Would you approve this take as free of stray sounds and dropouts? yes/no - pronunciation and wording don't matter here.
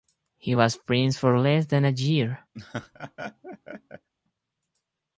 no